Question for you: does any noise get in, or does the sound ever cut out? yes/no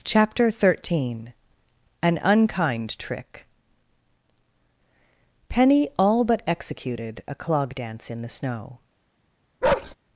yes